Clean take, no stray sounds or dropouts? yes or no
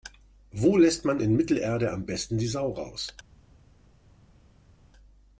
yes